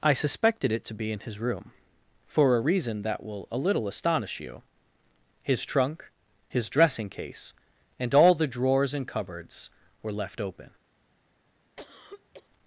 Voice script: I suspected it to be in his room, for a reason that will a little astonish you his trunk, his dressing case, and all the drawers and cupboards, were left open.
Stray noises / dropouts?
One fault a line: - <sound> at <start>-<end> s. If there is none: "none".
- cough at 11.8-12.5 s